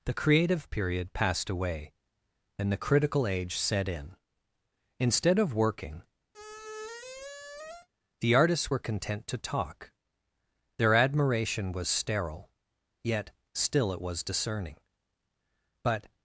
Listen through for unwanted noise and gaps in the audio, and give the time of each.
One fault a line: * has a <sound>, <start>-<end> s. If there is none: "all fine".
* has a squeak, 6.3-7.9 s